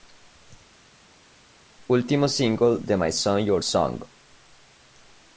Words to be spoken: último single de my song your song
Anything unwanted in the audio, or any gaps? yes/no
no